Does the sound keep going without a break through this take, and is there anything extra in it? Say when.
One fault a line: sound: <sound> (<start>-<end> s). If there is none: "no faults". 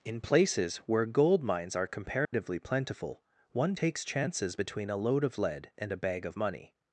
sound: dropout (2.2-2.3 s)